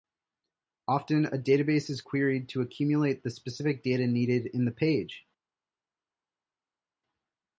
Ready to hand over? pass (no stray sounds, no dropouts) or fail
pass